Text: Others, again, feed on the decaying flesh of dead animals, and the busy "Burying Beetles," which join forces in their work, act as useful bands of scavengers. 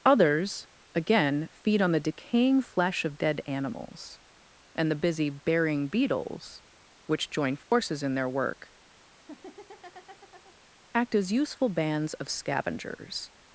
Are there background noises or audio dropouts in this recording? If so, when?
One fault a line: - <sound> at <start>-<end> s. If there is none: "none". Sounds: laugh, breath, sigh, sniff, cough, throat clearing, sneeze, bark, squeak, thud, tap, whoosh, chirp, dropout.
- dropout at 7.6-7.7 s
- laugh at 9.1-10.6 s